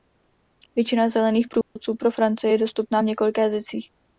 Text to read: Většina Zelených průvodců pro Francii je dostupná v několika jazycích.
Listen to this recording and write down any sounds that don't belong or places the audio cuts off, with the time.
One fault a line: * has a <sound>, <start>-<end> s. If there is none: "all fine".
* has a dropout, 1.6-1.8 s